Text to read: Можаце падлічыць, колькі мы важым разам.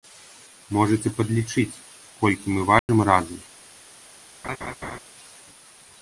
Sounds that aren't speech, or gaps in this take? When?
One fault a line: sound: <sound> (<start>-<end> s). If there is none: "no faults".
sound: dropout (2.8-2.9 s)
sound: laugh (4.4-5.0 s)